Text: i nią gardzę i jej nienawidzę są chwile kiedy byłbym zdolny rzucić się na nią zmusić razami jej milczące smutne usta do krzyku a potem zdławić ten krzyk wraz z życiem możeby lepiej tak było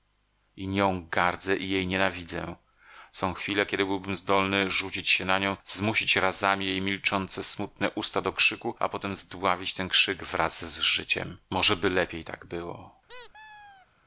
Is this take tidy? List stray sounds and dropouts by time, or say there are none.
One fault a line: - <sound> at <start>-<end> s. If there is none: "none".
- squeak at 13.1-13.9 s